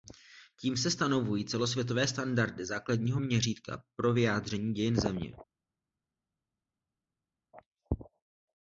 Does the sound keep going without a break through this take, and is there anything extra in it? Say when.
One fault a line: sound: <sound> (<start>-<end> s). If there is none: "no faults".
no faults